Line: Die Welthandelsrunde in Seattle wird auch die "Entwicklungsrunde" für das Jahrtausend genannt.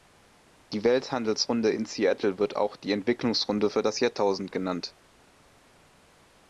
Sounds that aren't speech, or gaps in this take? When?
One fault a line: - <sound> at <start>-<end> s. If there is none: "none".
none